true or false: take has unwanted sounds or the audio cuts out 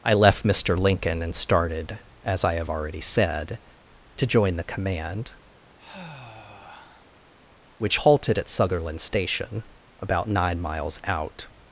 true